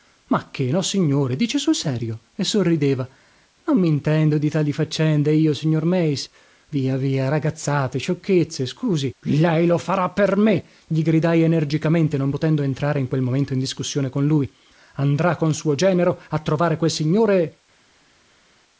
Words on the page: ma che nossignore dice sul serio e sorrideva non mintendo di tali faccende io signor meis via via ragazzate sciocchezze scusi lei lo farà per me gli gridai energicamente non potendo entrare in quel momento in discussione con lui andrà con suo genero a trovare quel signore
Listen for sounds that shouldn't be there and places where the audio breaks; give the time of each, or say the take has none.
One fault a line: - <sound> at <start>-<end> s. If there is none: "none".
none